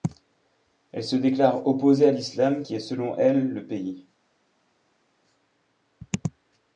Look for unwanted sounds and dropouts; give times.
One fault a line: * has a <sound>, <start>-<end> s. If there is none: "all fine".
all fine